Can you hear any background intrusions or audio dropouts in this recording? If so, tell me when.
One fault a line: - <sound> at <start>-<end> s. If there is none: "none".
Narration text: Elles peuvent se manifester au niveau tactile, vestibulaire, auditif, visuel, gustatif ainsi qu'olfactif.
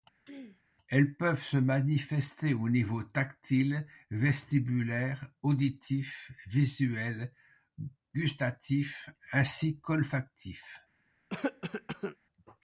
- throat clearing at 0.3-0.6 s
- cough at 11.3-12.2 s